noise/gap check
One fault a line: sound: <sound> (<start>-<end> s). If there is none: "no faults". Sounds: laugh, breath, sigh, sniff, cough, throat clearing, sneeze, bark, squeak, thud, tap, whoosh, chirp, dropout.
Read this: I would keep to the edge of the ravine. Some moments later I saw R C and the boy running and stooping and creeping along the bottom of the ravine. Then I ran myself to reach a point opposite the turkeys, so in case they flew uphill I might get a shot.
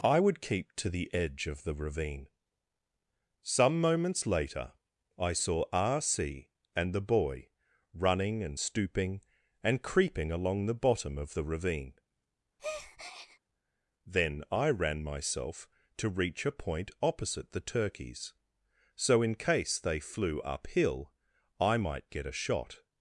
sound: breath (12.6-13.4 s)